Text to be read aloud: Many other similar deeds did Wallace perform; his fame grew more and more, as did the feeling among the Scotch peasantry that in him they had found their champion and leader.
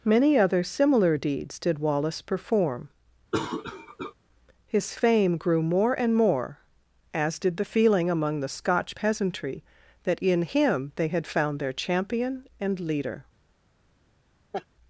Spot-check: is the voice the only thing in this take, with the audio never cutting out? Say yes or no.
no